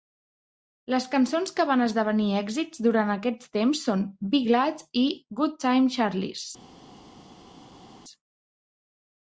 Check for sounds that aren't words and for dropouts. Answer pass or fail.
pass